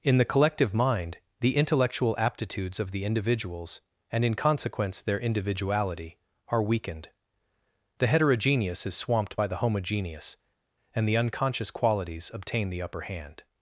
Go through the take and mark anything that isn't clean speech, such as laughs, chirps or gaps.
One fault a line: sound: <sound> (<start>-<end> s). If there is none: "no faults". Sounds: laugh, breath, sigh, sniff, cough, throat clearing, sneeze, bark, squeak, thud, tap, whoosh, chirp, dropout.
no faults